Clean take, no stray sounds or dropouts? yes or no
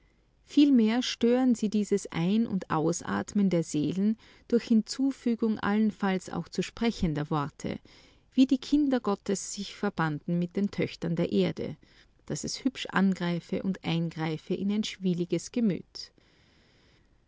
yes